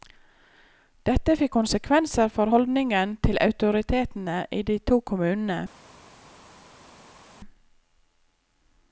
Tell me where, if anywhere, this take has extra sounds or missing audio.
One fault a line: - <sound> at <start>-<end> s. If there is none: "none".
none